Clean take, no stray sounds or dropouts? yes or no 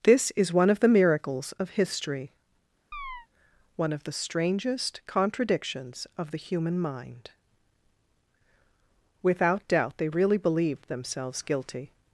no